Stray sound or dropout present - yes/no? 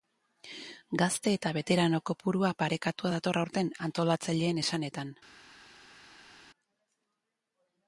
no